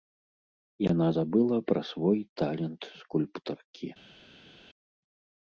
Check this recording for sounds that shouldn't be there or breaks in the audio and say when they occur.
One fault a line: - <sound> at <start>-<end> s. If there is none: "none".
none